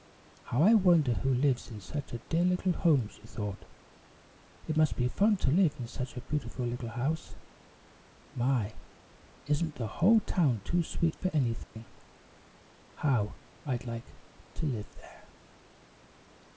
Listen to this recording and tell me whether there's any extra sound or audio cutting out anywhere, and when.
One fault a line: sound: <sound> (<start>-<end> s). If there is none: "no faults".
sound: dropout (11.6-11.8 s)